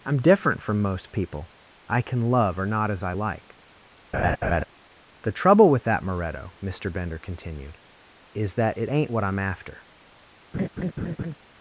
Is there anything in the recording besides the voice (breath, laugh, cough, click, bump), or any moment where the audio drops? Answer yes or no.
yes